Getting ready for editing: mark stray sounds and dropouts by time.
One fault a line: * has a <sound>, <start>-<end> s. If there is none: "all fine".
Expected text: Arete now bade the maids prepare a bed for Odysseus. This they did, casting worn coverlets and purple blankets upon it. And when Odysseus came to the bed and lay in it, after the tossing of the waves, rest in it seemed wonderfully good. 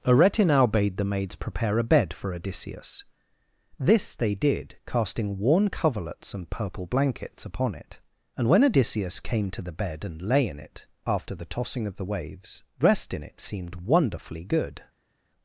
all fine